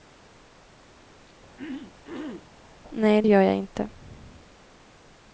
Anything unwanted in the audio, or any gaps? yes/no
yes